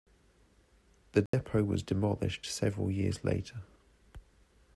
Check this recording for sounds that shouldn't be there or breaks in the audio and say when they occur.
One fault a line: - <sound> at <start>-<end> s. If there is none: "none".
- dropout at 1.3-1.3 s